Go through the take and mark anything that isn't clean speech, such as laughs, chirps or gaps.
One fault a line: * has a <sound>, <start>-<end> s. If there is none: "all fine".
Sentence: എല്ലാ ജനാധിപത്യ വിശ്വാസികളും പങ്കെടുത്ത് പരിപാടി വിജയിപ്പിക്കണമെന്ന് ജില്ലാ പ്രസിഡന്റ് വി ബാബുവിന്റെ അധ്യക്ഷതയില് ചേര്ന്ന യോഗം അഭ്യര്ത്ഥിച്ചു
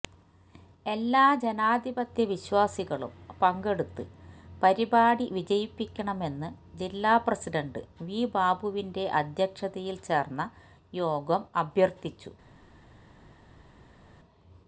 all fine